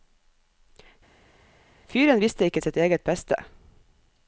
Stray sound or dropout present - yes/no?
no